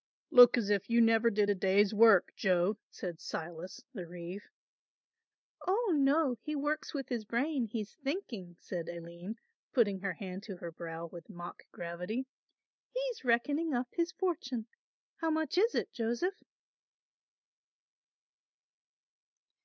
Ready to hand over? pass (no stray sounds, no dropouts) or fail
pass